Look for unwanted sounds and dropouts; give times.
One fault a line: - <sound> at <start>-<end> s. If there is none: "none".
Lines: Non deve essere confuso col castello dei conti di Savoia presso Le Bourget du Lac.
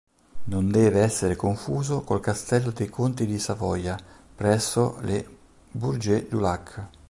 none